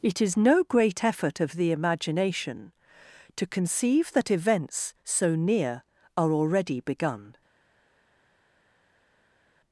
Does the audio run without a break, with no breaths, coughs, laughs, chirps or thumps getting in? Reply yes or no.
yes